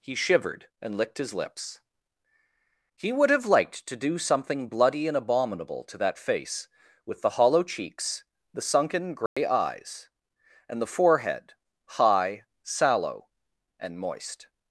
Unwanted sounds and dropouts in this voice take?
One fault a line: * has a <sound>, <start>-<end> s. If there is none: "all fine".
* has a dropout, 9.3-9.4 s